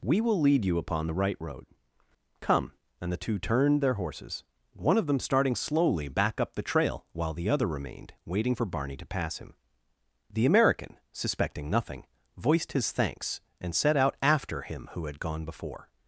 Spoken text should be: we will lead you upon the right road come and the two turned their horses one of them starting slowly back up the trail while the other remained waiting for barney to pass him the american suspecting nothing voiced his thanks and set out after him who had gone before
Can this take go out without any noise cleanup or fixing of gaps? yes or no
yes